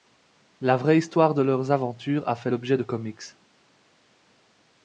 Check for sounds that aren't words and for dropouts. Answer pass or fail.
pass